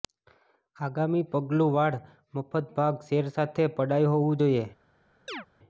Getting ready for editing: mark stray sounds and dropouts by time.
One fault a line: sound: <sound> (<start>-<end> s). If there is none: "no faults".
sound: chirp (5.3-5.5 s)